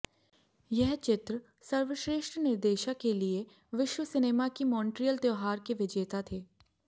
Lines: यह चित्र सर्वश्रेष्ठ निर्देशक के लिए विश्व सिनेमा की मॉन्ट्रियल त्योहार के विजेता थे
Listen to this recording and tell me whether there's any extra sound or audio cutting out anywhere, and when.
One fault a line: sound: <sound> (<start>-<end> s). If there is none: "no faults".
no faults